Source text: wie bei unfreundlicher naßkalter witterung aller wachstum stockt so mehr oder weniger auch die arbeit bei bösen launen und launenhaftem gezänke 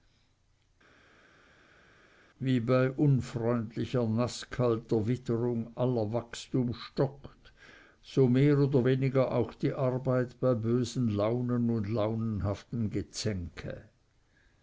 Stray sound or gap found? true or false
false